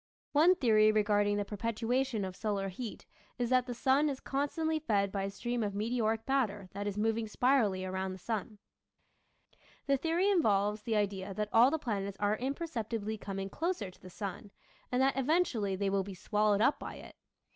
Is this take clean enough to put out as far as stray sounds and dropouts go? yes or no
yes